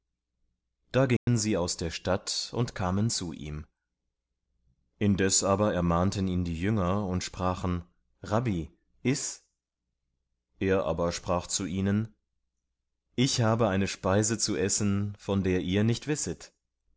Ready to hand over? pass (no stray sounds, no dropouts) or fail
fail